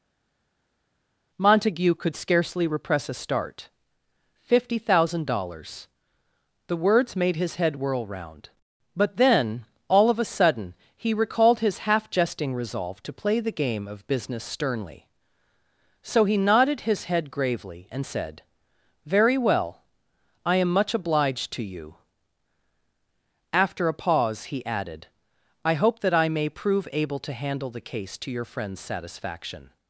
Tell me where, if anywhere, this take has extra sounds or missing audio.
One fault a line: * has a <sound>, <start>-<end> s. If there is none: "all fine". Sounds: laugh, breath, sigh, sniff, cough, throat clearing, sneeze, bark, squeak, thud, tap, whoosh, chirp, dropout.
all fine